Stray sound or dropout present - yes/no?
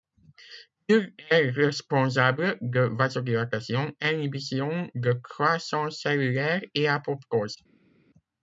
no